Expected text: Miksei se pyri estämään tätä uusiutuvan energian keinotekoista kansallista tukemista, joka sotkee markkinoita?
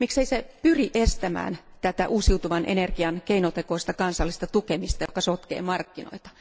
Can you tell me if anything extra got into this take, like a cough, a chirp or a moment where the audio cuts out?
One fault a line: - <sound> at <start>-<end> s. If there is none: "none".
- dropout at 5.1-5.1 s